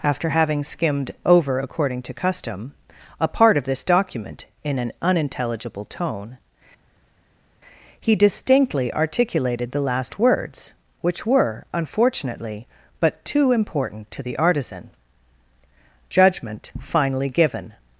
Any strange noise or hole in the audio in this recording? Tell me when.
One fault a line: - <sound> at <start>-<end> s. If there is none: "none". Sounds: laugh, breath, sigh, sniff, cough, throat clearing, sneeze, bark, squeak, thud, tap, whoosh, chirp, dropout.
none